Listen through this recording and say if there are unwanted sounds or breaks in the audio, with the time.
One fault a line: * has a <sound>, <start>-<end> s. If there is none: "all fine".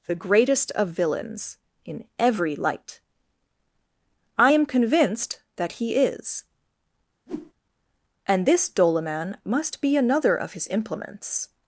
* has a whoosh, 7.3-7.5 s